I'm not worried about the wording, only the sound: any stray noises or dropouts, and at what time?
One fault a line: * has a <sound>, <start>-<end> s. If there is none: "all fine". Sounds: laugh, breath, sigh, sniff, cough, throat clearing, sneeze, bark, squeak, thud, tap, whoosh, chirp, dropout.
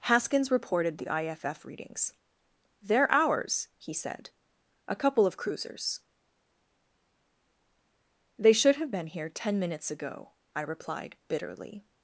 all fine